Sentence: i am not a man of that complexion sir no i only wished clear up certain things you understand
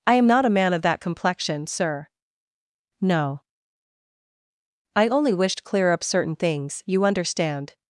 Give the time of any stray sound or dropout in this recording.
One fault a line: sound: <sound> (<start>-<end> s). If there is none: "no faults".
no faults